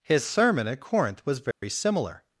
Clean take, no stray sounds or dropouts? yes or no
no